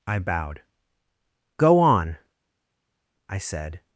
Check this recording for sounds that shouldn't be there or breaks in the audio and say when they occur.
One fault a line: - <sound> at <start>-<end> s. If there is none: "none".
none